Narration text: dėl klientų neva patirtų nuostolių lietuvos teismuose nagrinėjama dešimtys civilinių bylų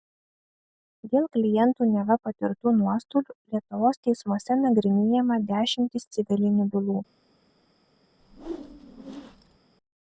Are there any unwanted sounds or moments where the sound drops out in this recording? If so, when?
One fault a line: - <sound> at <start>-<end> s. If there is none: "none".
- whoosh at 8.2-9.6 s